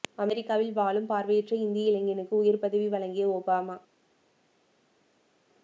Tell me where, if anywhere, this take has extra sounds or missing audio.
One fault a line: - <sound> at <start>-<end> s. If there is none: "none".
none